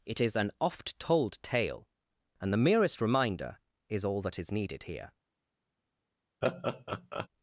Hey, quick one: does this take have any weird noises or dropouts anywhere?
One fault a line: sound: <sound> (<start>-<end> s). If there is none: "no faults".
sound: laugh (6.4-7.3 s)